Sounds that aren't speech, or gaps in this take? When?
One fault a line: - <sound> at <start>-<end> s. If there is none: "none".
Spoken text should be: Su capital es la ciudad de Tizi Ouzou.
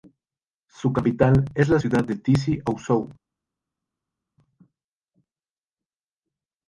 none